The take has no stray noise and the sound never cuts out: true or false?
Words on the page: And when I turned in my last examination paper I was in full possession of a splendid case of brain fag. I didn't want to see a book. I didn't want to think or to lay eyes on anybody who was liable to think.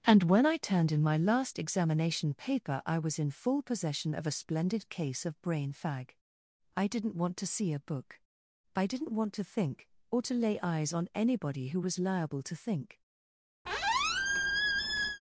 false